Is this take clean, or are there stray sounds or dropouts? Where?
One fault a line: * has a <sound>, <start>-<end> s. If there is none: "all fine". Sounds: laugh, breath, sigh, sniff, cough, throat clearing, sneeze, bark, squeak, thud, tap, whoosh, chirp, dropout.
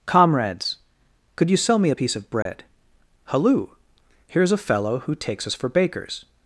* has a dropout, 2.4-2.5 s